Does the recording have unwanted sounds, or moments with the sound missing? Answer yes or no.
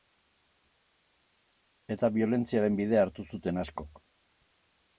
no